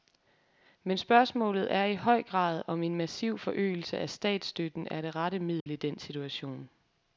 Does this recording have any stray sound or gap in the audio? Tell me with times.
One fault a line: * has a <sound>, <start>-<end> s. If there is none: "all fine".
* has a dropout, 5.6-5.7 s